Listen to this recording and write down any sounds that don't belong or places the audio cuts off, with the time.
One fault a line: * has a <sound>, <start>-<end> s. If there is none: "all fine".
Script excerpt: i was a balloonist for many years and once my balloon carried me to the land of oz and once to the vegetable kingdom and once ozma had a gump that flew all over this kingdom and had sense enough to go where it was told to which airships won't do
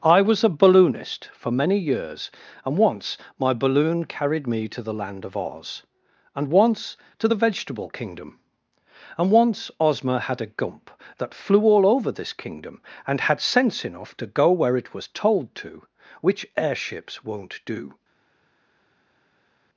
all fine